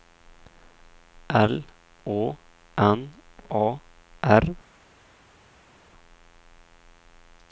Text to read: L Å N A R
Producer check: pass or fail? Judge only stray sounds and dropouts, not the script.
pass